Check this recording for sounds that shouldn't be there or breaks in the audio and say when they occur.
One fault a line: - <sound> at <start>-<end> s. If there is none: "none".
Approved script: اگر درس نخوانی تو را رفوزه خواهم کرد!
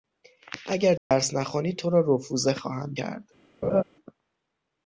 - dropout at 1.0-1.1 s
- laugh at 3.6-3.8 s